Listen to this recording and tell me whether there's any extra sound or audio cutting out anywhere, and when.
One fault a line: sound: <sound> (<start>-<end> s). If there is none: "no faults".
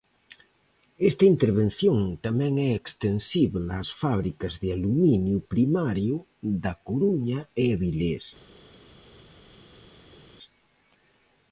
no faults